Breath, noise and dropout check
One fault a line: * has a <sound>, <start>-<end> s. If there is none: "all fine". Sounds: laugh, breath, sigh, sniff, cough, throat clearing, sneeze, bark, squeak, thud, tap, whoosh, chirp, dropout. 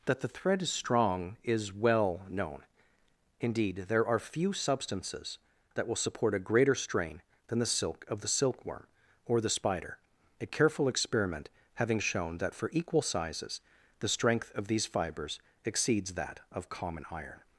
all fine